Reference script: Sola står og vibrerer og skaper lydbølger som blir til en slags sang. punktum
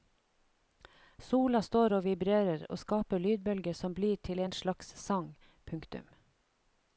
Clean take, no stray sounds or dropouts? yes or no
yes